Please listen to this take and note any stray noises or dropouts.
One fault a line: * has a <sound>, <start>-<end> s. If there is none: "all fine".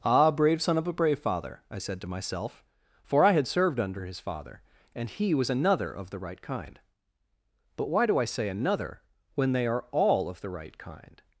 all fine